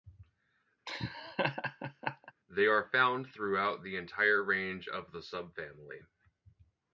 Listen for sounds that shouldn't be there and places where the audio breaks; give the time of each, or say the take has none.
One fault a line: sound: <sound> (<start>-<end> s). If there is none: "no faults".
sound: laugh (0.9-2.3 s)